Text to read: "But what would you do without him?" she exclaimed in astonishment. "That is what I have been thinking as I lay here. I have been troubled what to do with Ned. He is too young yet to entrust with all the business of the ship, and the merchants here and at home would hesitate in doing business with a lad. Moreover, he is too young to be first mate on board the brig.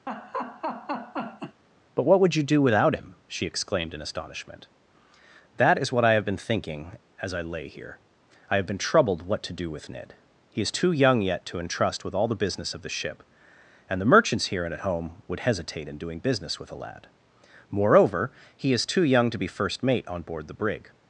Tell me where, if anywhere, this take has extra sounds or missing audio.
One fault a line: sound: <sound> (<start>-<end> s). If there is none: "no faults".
sound: laugh (0.1-1.6 s)